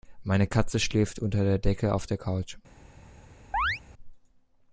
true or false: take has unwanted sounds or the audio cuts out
true